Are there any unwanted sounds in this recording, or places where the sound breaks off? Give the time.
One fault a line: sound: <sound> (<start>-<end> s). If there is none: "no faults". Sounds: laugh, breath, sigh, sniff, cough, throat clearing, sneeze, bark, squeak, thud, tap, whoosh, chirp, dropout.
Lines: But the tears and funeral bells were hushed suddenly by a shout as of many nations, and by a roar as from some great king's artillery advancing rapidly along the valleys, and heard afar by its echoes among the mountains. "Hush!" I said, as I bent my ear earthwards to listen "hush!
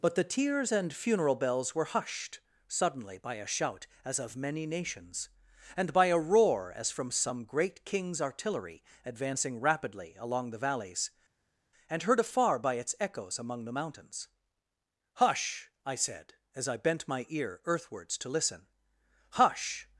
no faults